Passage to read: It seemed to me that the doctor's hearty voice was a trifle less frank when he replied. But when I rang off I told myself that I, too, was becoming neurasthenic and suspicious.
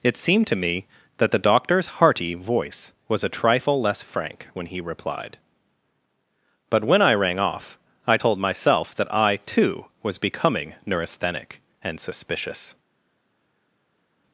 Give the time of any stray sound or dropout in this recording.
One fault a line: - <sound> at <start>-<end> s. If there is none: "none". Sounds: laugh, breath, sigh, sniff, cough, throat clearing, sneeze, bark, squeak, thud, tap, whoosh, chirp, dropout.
none